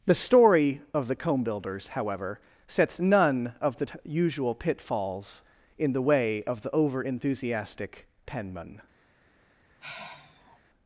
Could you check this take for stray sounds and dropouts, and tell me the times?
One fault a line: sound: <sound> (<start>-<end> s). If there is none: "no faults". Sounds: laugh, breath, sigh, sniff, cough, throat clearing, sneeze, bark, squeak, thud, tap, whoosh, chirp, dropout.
sound: sigh (9.8-10.6 s)